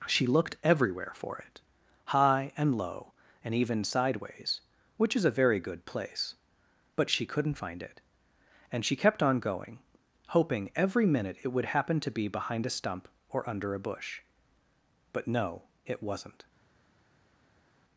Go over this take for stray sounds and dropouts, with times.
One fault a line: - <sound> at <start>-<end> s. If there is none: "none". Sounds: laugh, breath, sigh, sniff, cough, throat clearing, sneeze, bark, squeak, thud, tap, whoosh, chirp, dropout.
none